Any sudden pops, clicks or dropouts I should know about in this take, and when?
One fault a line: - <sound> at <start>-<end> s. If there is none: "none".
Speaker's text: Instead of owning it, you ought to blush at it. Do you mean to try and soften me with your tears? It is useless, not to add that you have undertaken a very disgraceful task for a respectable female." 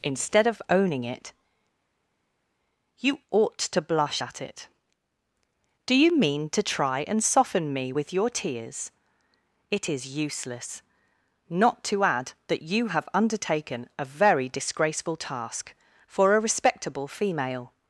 none